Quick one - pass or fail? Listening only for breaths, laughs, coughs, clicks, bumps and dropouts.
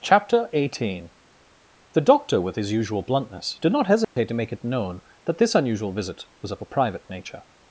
fail